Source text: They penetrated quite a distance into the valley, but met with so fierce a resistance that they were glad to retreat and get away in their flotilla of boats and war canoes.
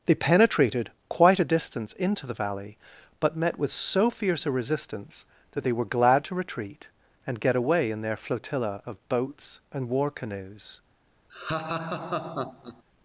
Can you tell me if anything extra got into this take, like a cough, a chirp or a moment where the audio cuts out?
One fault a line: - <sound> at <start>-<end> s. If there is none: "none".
- laugh at 11.3-12.8 s